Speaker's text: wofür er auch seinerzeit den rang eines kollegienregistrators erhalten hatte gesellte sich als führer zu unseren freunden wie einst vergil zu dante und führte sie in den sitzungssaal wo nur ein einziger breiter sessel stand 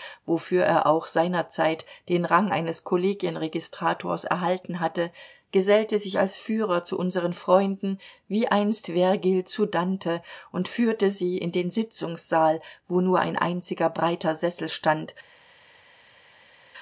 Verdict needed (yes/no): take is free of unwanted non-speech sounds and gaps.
yes